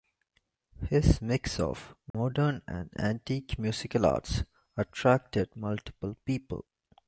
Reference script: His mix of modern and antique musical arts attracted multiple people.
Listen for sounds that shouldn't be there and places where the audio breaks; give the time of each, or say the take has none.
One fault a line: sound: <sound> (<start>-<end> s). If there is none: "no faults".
sound: dropout (2.1-2.1 s)